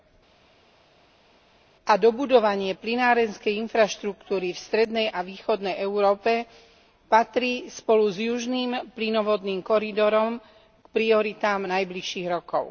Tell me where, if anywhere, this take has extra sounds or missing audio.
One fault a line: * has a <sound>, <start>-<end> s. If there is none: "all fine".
all fine